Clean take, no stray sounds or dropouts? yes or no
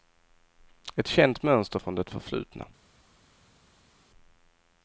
yes